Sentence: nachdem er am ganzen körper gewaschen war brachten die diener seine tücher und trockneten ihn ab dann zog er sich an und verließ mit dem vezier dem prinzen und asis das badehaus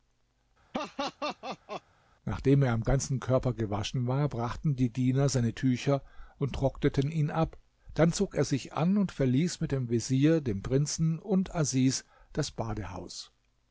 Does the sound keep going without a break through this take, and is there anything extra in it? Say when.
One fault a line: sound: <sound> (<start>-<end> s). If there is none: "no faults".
sound: laugh (0.7-1.8 s)